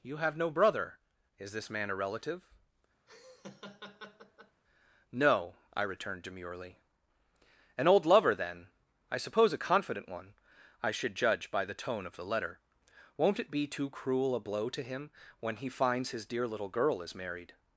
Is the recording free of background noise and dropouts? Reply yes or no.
no